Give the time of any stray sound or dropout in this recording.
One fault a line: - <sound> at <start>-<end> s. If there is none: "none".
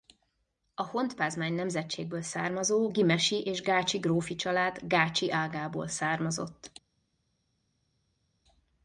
none